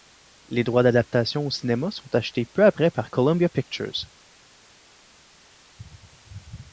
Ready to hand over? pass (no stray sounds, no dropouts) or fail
pass